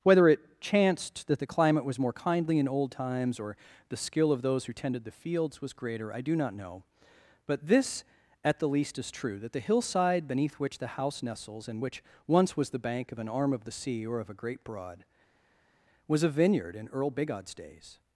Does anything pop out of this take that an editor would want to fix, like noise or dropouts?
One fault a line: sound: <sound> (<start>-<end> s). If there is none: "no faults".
no faults